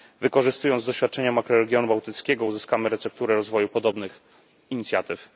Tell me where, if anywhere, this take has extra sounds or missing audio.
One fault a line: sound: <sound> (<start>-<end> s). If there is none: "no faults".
no faults